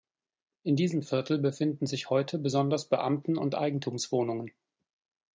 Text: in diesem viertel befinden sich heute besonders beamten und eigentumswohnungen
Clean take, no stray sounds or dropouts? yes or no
yes